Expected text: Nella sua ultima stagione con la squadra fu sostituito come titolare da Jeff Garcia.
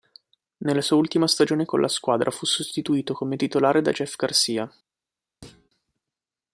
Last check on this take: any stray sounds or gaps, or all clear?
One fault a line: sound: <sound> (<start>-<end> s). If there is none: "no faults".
sound: thud (5.4-5.7 s)